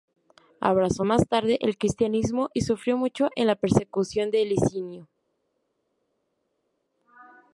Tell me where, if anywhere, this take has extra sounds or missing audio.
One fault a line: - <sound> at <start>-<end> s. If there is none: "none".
none